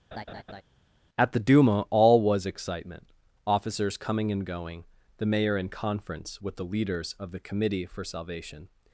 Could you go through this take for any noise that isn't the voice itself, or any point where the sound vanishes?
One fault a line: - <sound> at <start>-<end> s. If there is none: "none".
- laugh at 0.1-0.6 s